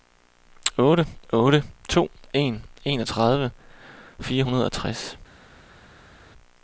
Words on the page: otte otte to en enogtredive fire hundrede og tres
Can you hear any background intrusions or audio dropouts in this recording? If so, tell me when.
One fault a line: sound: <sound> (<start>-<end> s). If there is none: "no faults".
no faults